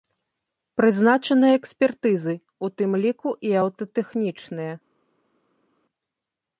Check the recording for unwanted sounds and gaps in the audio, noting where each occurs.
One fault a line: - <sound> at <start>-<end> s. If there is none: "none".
none